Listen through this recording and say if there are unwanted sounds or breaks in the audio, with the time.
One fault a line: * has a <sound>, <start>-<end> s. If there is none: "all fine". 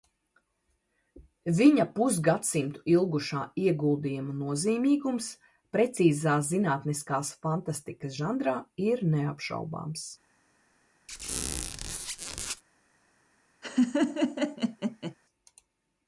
* has a squeak, 11.1-12.6 s
* has a laugh, 13.6-15.1 s